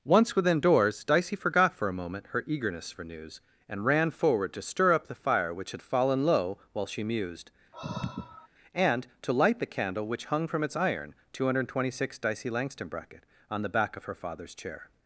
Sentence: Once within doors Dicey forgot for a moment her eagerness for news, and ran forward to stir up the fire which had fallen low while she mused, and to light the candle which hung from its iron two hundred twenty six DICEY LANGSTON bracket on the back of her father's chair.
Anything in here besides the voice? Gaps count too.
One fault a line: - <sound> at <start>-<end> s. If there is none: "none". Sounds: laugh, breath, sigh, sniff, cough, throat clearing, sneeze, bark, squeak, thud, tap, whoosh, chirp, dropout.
- sigh at 7.7-8.5 s